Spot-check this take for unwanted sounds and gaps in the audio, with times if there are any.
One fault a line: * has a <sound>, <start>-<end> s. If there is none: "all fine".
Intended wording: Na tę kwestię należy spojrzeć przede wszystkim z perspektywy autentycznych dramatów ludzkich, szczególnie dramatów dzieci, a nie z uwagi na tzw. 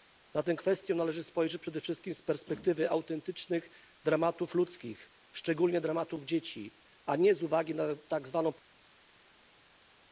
all fine